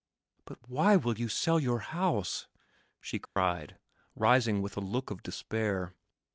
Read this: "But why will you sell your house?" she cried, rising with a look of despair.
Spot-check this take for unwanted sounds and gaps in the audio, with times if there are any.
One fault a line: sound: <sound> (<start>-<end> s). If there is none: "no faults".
sound: dropout (3.3-3.4 s)